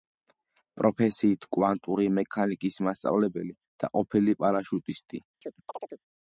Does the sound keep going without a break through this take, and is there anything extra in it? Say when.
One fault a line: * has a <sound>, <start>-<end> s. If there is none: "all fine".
* has a chirp, 5.4-6.0 s